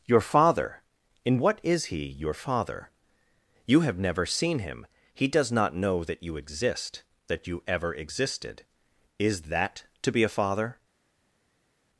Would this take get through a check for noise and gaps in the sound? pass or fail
pass